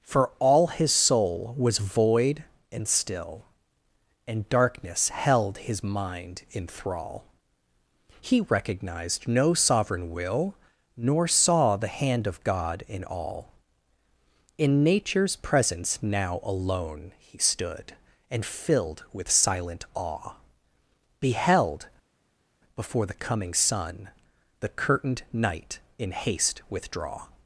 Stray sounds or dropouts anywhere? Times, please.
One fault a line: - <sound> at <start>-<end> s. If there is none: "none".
none